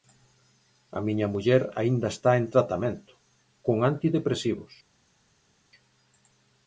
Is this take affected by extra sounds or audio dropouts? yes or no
no